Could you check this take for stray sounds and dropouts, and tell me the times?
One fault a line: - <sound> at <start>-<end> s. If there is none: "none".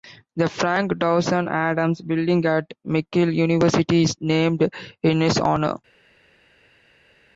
none